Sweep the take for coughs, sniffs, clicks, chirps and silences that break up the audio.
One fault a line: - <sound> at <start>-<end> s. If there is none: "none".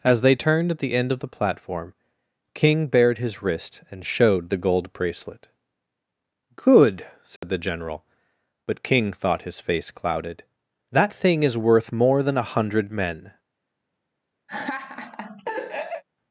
- dropout at 7.4-7.4 s
- laugh at 14.5-16.0 s